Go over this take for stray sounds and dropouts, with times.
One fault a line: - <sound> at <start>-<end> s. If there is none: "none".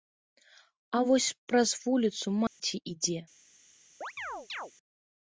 - dropout at 2.5-2.6 s
- chirp at 4.0-4.7 s